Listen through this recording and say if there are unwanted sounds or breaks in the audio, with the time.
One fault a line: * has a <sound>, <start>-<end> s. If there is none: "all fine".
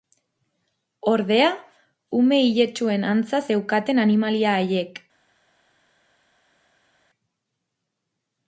all fine